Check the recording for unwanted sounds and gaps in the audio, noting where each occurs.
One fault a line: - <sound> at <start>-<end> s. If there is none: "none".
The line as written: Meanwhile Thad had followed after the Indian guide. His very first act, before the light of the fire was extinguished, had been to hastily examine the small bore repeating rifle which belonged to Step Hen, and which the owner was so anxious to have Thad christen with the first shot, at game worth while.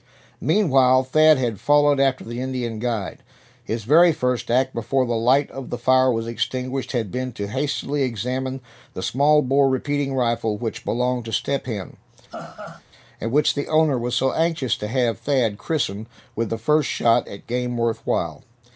- laugh at 12.3-12.8 s